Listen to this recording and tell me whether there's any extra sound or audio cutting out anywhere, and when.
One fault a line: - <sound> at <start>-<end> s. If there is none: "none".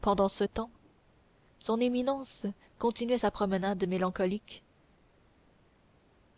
none